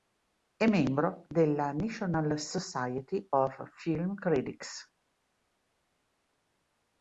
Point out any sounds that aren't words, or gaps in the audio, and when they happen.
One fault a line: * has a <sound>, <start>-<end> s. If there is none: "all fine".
all fine